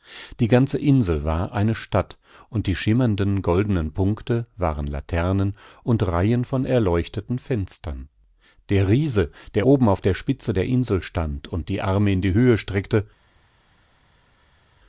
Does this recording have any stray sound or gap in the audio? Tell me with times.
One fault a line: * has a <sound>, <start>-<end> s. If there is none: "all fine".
all fine